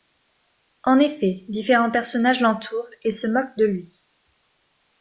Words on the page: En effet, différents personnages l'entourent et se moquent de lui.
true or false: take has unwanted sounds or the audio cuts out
false